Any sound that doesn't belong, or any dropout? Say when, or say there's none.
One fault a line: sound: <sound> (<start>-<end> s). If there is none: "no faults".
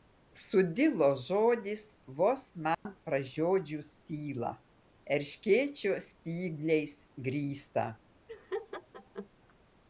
sound: dropout (2.7-2.9 s)
sound: laugh (8.3-9.3 s)